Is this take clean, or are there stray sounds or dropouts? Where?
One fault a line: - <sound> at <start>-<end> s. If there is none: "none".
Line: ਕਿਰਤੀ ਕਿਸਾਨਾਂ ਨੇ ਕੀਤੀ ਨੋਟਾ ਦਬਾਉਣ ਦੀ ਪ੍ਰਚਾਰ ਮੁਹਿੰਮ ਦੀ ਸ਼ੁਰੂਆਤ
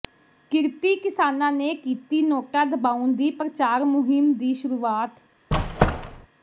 - squeak at 5.5-6.3 s